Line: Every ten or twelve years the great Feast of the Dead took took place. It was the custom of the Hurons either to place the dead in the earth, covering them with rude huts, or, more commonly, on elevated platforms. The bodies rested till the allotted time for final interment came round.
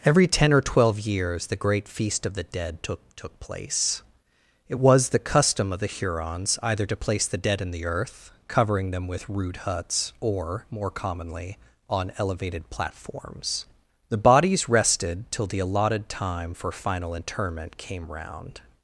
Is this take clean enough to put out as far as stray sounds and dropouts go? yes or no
yes